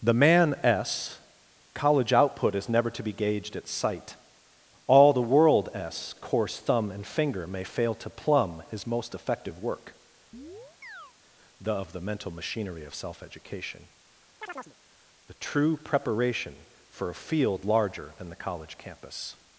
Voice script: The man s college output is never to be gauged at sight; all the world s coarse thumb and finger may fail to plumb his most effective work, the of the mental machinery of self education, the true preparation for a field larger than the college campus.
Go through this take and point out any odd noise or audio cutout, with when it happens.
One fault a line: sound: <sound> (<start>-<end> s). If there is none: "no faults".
sound: chirp (10.3-11.1 s)
sound: chirp (14.4-14.7 s)